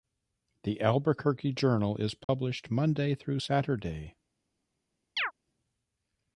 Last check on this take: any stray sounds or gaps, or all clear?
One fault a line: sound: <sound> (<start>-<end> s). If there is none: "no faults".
sound: dropout (2.2-2.3 s)
sound: chirp (5.2-5.3 s)